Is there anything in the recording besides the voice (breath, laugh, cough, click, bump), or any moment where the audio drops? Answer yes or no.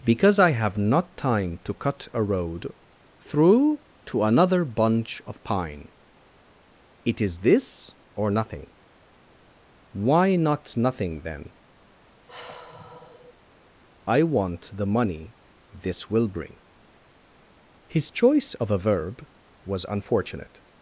yes